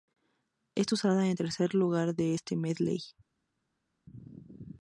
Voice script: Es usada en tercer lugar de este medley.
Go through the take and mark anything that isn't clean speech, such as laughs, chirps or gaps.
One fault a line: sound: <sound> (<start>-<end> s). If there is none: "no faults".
no faults